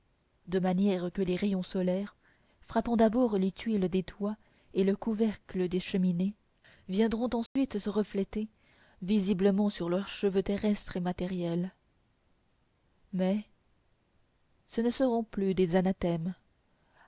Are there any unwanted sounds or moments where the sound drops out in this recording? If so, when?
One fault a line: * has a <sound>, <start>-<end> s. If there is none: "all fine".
* has a dropout, 7.5-7.6 s